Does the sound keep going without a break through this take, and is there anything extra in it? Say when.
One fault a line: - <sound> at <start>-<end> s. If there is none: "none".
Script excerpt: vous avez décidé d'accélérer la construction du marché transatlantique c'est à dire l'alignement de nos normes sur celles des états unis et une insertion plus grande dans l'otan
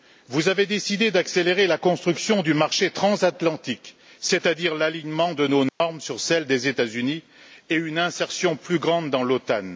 - dropout at 5.7-5.8 s